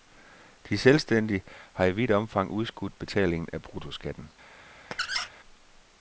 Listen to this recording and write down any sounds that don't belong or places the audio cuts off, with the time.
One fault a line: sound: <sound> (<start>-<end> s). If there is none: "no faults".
sound: squeak (4.9-5.3 s)